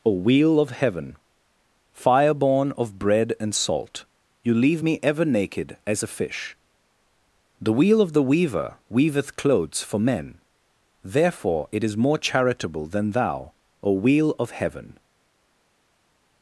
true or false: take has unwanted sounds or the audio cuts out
false